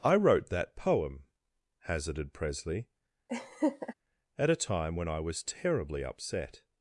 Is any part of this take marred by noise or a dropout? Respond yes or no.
yes